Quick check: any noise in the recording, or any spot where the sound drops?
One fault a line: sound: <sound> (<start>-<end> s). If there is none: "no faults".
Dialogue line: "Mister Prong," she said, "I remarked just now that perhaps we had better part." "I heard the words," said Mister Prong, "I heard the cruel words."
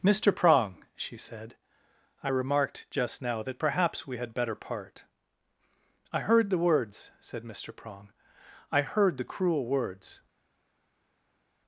no faults